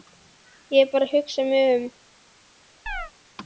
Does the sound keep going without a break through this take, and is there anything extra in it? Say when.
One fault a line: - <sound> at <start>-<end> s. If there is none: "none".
- chirp at 2.9-3.1 s